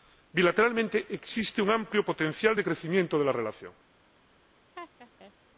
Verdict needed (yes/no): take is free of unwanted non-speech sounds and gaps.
no